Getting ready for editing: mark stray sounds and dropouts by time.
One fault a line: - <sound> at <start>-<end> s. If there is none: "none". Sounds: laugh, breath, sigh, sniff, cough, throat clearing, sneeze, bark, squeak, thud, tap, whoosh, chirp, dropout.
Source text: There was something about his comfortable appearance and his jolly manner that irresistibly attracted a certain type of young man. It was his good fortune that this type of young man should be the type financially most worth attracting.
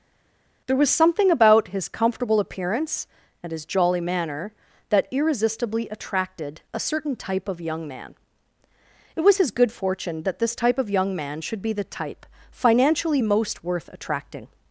none